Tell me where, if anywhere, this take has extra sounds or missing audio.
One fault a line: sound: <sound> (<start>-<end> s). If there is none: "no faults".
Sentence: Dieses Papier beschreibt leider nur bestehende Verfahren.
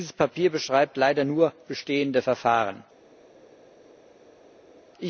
no faults